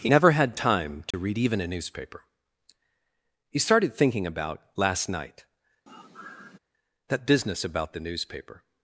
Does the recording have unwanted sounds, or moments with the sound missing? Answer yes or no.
yes